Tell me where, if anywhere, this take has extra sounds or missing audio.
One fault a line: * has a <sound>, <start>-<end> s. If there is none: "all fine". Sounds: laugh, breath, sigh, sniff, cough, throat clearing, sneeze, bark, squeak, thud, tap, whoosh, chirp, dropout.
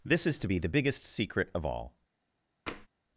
* has a tap, 2.7-2.9 s